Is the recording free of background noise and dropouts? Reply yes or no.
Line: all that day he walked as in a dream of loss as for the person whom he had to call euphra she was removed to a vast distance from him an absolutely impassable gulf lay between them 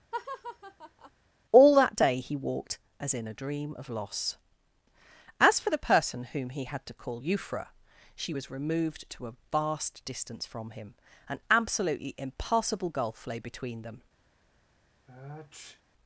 no